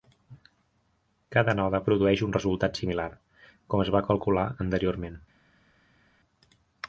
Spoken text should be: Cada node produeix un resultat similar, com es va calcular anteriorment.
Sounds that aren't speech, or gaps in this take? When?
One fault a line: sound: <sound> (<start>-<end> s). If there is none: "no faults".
no faults